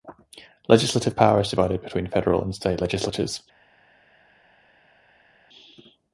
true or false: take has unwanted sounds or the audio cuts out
false